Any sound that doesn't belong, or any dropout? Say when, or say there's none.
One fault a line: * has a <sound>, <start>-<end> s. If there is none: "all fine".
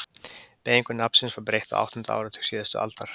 all fine